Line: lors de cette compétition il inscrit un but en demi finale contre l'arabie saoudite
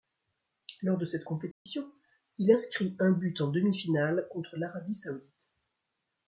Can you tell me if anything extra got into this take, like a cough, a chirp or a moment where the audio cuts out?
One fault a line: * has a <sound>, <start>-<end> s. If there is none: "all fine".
* has a dropout, 1.5-1.7 s